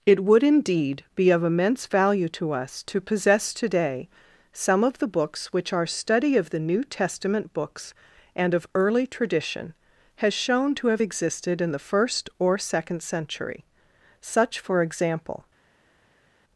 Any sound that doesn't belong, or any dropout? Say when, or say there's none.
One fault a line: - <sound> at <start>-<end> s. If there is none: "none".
none